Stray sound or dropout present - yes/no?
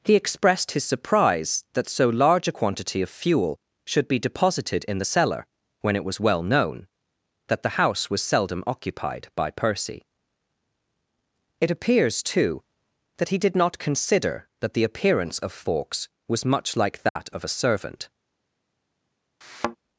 yes